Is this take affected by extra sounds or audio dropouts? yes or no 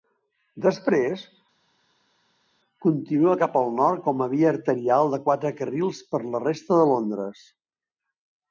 no